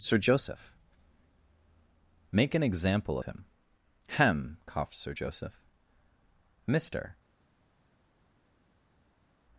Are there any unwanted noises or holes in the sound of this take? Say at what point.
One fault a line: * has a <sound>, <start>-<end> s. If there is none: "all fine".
all fine